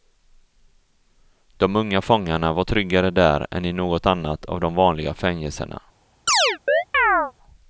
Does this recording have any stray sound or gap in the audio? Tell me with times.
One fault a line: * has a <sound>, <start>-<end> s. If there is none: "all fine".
* has a chirp, 6.3-7.3 s